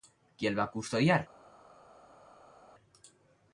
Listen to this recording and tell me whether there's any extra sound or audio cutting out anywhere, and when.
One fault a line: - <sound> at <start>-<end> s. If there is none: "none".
none